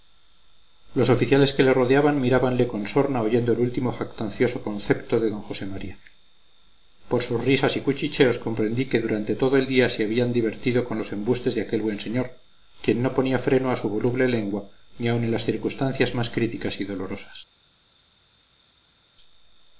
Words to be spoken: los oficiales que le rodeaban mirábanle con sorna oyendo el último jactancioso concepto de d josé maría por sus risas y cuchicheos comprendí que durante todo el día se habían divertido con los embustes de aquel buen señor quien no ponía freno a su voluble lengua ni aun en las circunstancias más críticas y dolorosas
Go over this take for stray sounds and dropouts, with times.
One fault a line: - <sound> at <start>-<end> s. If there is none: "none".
none